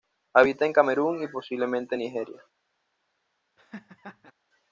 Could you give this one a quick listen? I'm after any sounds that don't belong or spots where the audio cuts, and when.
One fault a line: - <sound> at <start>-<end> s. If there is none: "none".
- laugh at 3.6-4.3 s